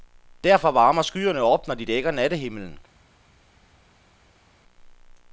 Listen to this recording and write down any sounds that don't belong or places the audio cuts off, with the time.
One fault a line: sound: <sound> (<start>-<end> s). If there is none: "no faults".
no faults